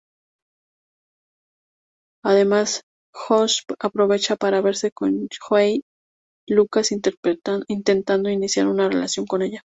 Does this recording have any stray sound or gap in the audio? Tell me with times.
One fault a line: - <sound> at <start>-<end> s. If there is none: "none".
none